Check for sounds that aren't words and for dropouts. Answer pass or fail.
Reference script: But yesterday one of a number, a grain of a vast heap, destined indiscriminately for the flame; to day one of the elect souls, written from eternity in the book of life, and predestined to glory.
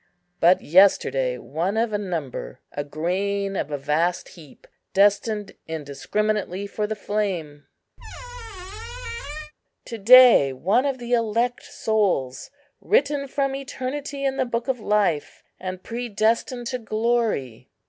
fail